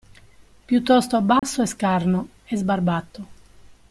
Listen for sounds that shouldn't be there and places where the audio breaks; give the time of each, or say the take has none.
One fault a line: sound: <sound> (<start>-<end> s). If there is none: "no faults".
sound: dropout (1.4-1.4 s)